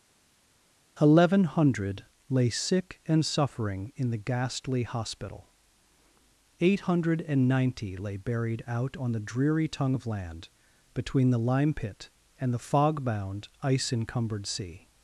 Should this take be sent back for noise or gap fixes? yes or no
no